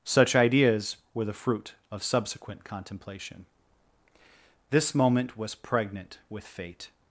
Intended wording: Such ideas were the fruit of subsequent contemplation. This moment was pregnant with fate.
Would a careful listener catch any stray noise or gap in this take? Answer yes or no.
no